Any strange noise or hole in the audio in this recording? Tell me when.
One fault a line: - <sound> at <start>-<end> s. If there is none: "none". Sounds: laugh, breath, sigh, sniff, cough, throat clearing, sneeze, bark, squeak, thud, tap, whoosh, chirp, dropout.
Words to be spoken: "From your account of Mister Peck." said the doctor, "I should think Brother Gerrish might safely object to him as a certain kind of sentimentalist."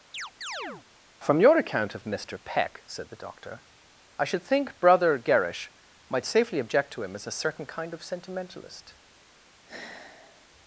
- chirp at 0.1-0.9 s
- sigh at 9.7-10.5 s